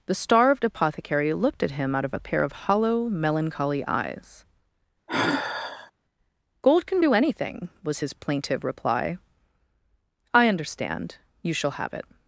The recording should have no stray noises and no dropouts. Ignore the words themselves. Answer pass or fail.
fail